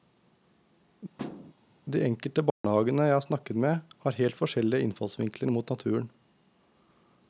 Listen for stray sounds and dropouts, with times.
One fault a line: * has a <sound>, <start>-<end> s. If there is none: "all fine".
* has a thud, 1.2-1.5 s
* has a dropout, 2.5-2.6 s